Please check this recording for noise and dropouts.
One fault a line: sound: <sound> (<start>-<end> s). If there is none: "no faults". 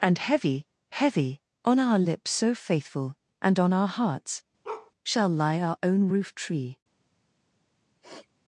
sound: bark (4.6-4.9 s)
sound: sniff (8.0-8.3 s)